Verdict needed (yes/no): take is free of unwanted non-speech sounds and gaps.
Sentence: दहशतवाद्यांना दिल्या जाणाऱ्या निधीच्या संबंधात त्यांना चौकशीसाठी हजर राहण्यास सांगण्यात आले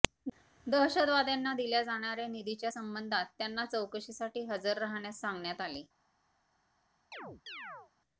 no